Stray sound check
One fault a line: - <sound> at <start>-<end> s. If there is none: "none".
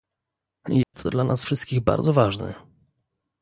- dropout at 0.8-0.9 s